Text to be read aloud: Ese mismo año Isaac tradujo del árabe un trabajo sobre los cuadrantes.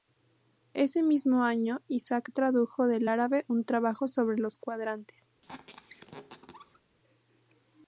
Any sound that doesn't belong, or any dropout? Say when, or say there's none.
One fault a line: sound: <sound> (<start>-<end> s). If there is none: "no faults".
sound: squeak (5.4-6.8 s)